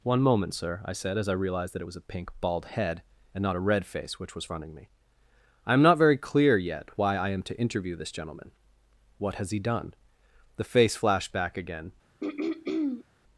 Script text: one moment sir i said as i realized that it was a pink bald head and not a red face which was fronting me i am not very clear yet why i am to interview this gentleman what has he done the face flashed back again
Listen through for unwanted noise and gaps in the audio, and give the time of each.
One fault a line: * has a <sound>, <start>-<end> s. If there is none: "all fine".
* has a throat clearing, 12.2-13.1 s